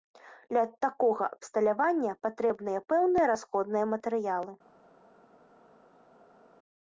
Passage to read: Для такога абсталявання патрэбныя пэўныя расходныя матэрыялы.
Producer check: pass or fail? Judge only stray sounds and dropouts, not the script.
pass